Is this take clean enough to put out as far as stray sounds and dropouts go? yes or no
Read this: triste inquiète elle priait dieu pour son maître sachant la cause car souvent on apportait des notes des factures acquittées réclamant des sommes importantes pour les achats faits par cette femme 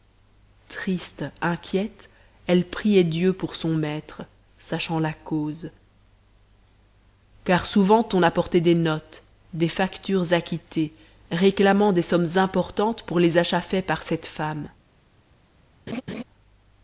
no